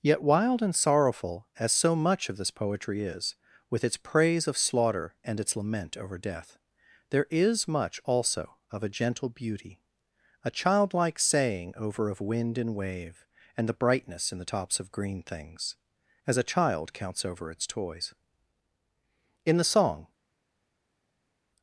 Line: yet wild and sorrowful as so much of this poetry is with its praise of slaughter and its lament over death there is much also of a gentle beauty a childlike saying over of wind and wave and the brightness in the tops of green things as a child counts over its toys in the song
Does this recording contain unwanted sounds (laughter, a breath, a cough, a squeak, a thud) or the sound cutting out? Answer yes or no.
no